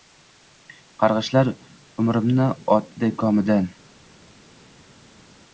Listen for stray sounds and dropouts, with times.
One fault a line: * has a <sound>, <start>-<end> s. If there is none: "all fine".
all fine